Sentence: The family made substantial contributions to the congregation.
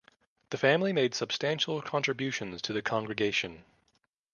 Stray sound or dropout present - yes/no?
no